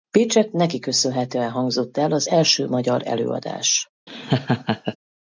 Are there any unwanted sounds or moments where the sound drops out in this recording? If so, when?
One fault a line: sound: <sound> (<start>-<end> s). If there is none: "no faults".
sound: laugh (4.1-5.0 s)